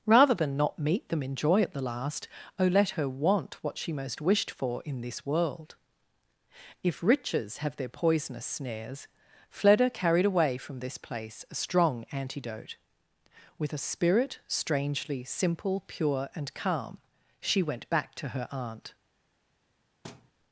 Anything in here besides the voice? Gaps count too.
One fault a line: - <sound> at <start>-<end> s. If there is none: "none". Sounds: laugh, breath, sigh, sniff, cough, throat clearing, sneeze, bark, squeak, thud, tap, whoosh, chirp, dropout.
- thud at 20.0-20.3 s